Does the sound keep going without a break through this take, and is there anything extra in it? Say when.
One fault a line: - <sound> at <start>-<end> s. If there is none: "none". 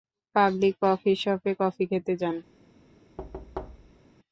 - thud at 3.2-4.0 s